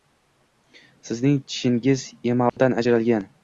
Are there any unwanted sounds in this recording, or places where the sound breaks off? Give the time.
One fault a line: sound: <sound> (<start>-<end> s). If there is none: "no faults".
sound: dropout (2.5-2.6 s)